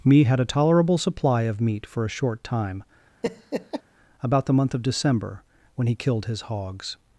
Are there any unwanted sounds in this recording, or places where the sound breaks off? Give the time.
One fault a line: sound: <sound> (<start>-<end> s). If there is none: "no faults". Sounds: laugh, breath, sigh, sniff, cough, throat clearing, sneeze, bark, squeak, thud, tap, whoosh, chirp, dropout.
sound: laugh (3.2-3.8 s)